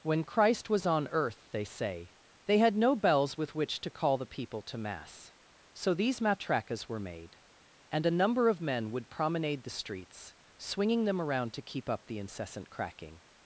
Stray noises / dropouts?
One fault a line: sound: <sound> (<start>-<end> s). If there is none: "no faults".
no faults